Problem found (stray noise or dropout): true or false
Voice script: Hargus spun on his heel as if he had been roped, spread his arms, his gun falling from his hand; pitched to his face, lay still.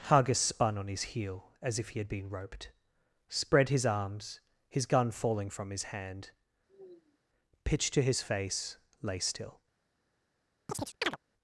true